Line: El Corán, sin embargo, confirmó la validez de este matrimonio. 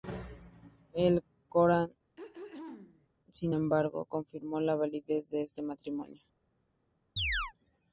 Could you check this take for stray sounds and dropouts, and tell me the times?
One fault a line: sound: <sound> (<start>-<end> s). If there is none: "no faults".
sound: throat clearing (2.2-3.1 s)
sound: chirp (7.2-7.5 s)